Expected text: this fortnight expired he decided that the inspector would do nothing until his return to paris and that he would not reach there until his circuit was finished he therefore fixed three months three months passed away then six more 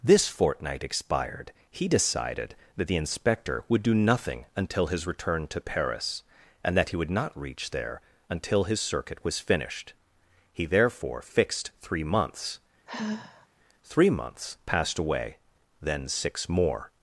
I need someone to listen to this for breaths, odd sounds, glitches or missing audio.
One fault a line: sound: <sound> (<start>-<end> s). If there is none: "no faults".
sound: sigh (12.9-13.5 s)